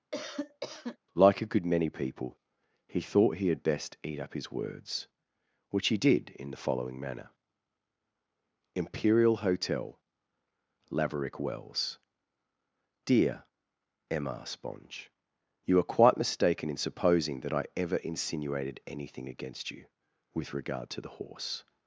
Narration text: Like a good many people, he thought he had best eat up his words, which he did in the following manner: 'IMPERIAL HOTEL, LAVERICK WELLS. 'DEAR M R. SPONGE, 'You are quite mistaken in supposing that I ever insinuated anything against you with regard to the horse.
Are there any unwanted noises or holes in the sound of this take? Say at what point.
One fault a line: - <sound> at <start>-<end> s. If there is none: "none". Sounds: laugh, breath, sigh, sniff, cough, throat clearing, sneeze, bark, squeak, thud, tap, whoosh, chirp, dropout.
- cough at 0.1-1.0 s